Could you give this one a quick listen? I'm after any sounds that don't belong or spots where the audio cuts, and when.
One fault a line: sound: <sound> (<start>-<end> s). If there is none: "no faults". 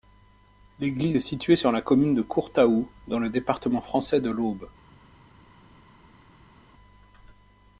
no faults